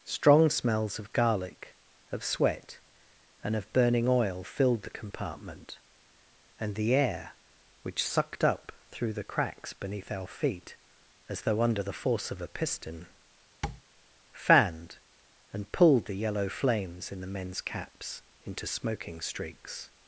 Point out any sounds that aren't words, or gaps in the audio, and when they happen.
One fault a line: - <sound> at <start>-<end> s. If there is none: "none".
- tap at 13.6-13.8 s